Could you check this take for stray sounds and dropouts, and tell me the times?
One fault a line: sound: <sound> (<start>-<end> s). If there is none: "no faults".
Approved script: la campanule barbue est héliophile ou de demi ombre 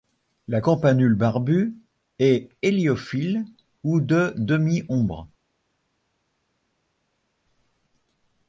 no faults